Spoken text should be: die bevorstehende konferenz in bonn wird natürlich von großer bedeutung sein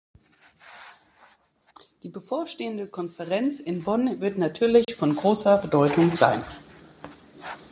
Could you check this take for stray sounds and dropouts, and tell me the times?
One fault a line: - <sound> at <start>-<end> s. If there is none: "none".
- dropout at 4.8-4.9 s